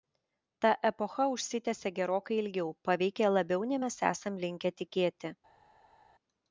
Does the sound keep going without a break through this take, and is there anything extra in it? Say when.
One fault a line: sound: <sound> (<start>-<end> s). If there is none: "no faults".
no faults